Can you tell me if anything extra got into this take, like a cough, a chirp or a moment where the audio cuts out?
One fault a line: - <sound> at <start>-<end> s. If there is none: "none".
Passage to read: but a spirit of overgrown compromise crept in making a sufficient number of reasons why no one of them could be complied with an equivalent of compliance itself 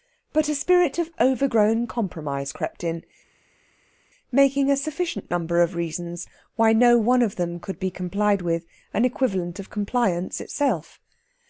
none